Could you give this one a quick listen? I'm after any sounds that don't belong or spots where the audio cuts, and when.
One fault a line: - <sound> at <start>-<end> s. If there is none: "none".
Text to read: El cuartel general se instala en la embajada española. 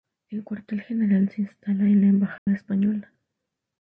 - dropout at 2.4-2.5 s